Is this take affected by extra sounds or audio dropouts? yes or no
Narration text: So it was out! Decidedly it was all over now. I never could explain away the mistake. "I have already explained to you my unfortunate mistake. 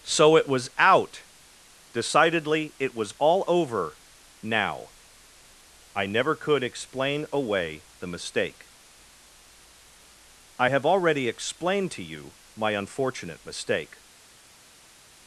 no